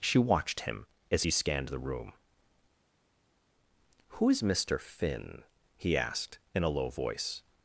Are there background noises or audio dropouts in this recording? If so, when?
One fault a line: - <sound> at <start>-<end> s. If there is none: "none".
none